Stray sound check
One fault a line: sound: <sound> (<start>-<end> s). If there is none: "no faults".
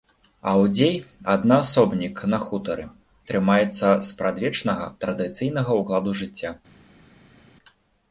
no faults